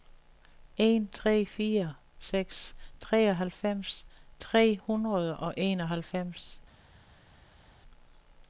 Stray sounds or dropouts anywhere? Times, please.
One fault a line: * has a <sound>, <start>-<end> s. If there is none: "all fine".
all fine